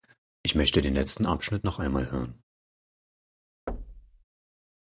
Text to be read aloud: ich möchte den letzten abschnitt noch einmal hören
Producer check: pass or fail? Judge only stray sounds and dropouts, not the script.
fail